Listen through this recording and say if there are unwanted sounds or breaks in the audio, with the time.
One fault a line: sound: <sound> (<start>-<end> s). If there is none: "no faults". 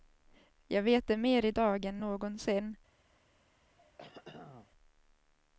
sound: throat clearing (3.8-4.7 s)